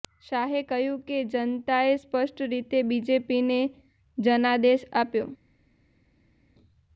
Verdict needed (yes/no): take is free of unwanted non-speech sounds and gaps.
yes